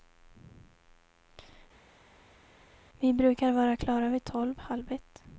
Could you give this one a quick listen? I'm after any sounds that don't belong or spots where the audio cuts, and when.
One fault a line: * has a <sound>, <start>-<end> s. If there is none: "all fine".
all fine